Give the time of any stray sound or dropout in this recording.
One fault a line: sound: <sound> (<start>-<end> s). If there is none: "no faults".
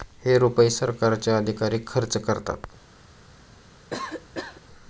sound: cough (3.9-4.6 s)